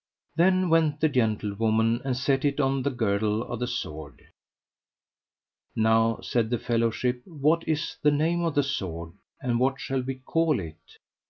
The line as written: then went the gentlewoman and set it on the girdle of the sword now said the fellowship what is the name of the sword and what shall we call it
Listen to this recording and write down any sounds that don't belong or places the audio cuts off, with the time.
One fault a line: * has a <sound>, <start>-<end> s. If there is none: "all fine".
all fine